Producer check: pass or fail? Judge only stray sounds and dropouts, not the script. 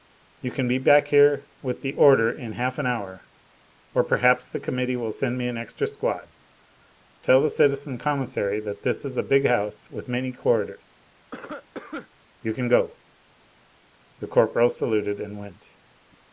fail